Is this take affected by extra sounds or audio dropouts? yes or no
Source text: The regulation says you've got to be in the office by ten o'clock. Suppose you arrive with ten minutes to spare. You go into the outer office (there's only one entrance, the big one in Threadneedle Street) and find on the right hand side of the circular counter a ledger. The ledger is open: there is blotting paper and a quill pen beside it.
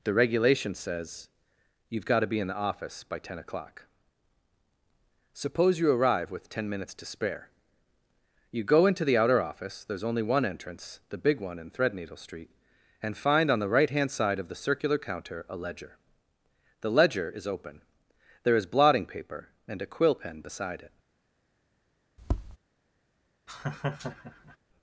yes